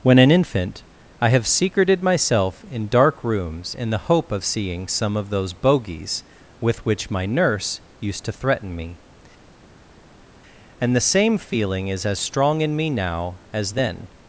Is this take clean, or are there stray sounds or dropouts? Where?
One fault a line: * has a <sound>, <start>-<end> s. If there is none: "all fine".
all fine